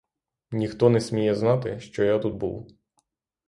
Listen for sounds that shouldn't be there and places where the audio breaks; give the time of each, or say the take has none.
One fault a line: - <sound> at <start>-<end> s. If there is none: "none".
none